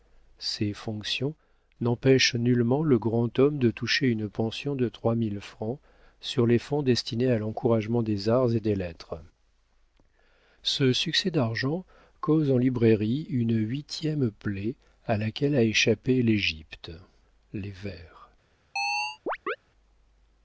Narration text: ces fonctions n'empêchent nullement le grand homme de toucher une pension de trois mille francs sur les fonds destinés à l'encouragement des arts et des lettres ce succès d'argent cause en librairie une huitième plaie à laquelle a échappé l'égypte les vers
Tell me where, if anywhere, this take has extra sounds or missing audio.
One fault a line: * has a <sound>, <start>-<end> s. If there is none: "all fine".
* has a chirp, 18.8-19.6 s